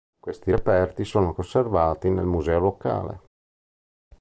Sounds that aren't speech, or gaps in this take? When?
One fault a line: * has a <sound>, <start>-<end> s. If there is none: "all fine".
all fine